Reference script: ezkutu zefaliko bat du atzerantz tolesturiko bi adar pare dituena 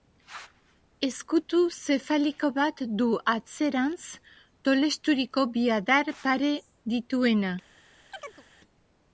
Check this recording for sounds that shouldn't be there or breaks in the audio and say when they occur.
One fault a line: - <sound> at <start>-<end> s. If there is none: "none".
- chirp at 8.1-8.4 s